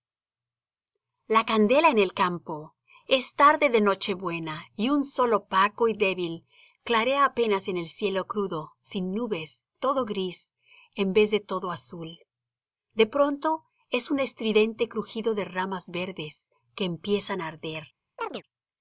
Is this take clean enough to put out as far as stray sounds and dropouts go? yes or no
no